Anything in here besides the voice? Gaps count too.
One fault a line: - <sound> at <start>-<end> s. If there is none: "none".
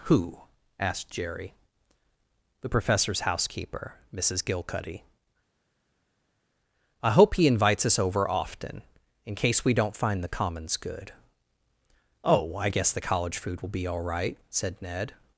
none